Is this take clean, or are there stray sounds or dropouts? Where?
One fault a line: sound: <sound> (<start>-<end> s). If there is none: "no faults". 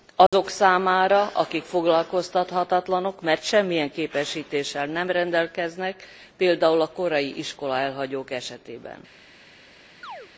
sound: dropout (0.3-0.3 s)
sound: chirp (10.0-10.3 s)